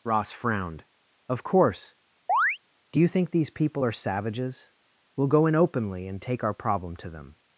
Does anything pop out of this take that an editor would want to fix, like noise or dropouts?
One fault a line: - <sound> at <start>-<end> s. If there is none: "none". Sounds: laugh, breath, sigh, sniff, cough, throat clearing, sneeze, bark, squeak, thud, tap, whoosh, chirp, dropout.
- chirp at 2.3-2.6 s